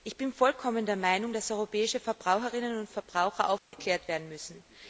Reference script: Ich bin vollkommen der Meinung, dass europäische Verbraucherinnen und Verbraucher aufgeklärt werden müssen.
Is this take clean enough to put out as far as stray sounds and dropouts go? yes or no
no